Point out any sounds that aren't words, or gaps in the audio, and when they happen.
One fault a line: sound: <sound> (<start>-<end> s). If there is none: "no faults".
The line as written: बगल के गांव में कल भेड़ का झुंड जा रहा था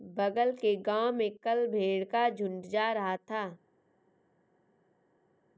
no faults